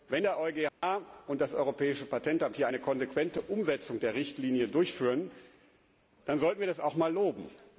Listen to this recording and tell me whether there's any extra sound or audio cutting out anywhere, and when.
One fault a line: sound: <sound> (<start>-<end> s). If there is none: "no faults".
sound: dropout (0.7-0.8 s)